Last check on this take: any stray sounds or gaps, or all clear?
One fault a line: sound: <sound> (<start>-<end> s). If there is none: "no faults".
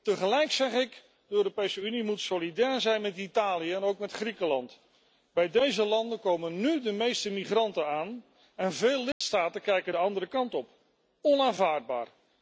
sound: dropout (9.1-9.2 s)